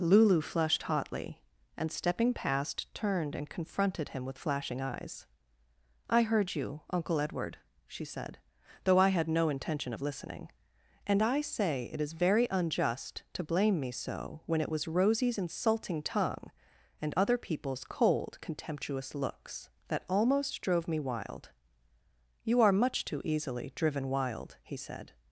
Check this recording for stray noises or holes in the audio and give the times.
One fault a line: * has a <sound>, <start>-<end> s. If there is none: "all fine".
all fine